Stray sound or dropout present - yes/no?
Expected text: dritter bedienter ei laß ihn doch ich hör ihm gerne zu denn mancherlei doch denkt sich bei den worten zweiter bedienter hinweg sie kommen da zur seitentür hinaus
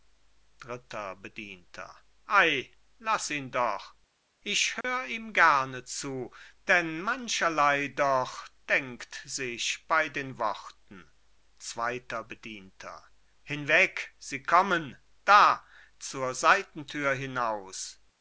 yes